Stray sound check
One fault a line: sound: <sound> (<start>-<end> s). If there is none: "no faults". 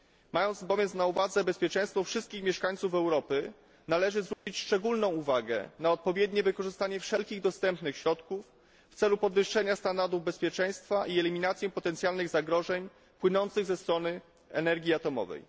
sound: dropout (4.3-4.5 s)